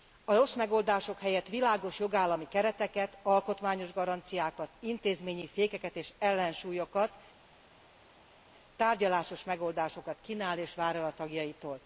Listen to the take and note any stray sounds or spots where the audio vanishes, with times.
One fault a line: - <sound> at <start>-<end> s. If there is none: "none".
none